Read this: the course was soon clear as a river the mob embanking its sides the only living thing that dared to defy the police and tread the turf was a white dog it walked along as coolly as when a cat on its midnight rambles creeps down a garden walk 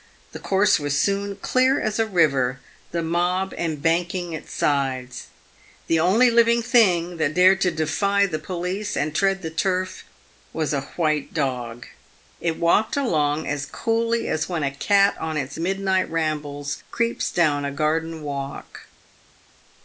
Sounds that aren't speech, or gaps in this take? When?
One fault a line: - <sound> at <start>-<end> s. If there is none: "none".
none